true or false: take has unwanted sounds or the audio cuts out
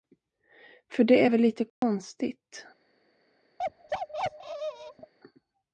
true